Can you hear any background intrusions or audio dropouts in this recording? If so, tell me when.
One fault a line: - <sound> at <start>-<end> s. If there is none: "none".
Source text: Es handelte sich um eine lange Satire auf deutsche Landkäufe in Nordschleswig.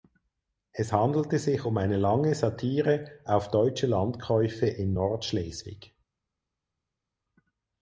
none